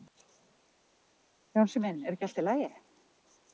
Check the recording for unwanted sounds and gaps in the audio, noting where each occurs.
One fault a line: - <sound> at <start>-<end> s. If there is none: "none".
none